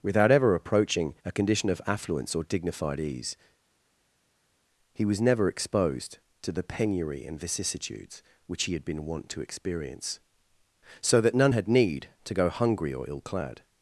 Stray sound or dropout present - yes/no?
no